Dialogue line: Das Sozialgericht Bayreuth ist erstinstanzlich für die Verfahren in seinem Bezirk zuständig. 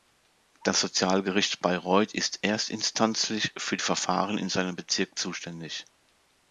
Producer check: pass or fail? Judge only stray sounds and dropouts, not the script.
pass